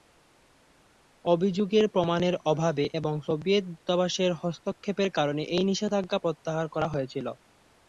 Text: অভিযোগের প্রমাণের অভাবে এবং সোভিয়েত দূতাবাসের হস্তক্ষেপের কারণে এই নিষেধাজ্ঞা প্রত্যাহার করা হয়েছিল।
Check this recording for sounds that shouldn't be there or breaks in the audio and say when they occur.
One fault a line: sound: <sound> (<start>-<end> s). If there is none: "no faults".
no faults